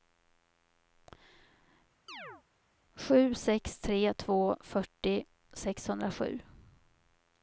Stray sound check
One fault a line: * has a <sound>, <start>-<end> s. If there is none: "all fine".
* has a chirp, 2.1-2.4 s